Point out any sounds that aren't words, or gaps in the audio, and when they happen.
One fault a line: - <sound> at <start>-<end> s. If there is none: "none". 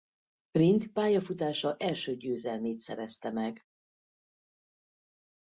none